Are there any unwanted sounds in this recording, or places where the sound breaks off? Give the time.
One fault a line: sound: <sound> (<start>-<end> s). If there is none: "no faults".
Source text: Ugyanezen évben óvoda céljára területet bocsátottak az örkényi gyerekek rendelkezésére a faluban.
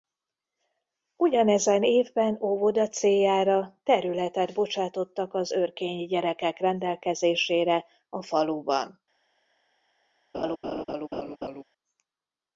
sound: laugh (10.3-11.6 s)